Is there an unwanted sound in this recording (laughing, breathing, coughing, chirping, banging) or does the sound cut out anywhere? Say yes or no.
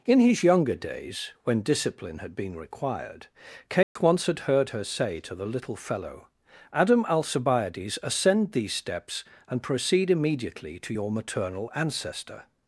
yes